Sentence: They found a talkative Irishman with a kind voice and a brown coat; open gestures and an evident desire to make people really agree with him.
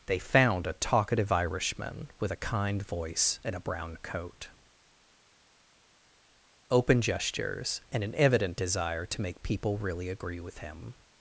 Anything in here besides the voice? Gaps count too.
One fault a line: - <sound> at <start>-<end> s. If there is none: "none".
none